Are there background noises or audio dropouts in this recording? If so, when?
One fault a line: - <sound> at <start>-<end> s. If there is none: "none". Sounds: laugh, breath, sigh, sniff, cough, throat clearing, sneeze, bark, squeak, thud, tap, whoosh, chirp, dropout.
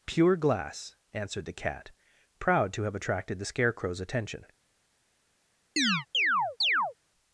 - chirp at 5.8-6.9 s